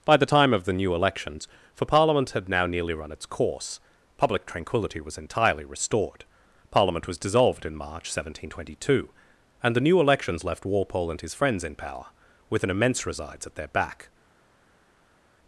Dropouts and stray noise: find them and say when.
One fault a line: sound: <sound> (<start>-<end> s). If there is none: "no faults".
no faults